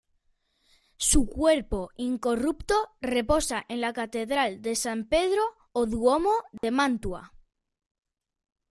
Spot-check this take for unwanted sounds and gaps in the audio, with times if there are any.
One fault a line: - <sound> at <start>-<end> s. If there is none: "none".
- dropout at 6.6-6.6 s